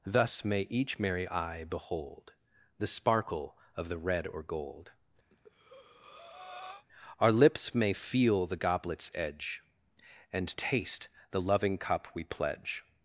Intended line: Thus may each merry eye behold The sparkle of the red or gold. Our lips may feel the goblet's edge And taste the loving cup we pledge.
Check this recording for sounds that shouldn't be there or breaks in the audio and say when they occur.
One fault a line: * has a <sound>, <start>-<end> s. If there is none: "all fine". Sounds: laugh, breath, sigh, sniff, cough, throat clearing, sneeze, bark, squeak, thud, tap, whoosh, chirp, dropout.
* has a breath, 5.3-6.9 s